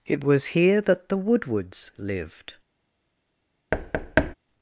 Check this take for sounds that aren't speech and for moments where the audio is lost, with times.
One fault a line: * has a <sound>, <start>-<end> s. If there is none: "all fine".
* has a thud, 3.7-4.3 s